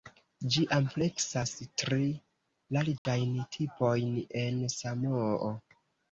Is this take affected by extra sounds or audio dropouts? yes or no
yes